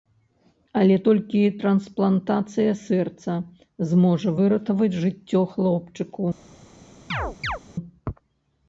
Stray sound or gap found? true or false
true